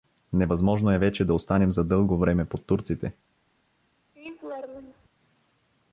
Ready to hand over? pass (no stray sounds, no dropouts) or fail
fail